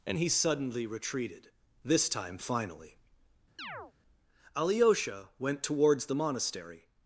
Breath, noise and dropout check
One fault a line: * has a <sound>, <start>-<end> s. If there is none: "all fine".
* has a chirp, 3.6-3.9 s